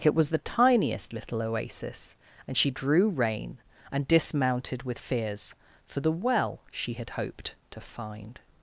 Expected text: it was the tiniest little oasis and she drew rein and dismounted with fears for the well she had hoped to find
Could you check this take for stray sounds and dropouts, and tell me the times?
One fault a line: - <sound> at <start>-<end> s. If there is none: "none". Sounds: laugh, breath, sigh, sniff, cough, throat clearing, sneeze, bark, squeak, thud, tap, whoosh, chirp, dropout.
none